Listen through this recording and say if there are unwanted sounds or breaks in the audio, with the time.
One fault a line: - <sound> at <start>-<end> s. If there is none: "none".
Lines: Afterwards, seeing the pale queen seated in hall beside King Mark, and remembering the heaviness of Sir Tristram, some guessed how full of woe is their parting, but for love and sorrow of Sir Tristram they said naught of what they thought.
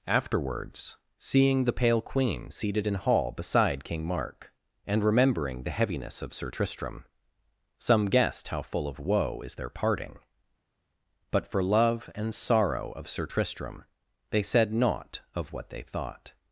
none